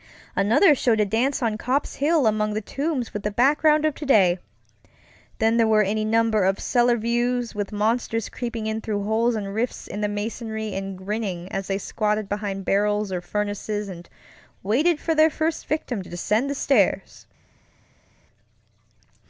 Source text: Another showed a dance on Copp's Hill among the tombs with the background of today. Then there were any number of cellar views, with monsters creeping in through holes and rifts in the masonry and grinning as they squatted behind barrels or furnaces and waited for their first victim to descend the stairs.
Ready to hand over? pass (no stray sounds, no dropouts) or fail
pass